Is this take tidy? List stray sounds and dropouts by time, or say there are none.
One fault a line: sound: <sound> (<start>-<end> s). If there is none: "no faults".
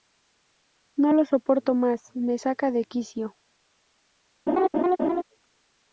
sound: laugh (4.5-5.2 s)